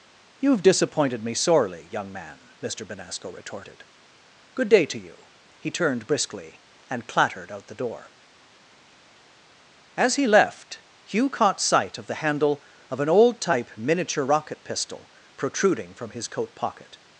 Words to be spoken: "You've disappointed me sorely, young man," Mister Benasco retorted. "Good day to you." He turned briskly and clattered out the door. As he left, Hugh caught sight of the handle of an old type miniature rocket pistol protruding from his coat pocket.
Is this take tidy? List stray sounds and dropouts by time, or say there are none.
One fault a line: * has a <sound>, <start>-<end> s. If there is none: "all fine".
all fine